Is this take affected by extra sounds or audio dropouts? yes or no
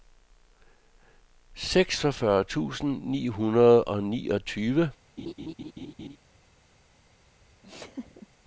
yes